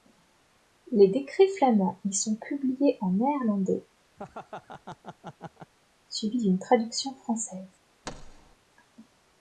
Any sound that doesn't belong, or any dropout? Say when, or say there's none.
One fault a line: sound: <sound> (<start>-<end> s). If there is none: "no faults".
sound: laugh (4.2-5.7 s)
sound: thud (8.0-8.6 s)